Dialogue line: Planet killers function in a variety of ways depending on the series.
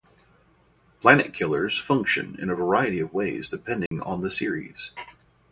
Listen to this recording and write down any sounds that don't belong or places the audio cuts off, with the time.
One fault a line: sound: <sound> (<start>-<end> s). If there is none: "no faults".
sound: dropout (3.9-3.9 s)